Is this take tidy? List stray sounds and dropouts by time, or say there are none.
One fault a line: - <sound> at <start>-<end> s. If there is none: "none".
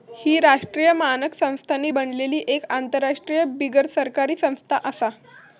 none